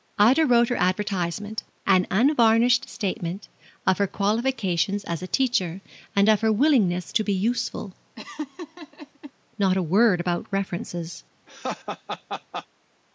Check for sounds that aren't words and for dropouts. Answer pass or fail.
fail